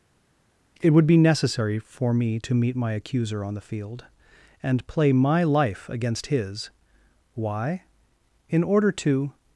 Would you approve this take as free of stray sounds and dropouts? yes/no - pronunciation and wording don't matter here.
yes